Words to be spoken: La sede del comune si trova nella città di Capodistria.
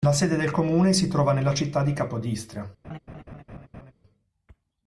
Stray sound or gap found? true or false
true